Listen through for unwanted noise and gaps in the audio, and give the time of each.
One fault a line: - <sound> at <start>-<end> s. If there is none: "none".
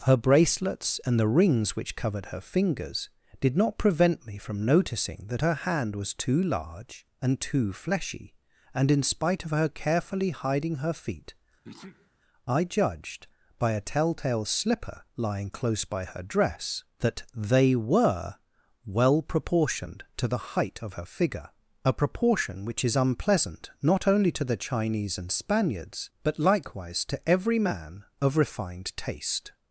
- sneeze at 11.6-12.1 s